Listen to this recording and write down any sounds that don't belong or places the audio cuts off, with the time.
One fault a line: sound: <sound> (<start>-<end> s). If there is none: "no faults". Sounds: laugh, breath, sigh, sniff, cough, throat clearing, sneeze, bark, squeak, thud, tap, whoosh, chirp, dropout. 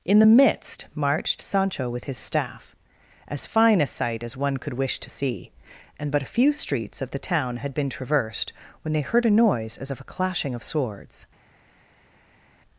no faults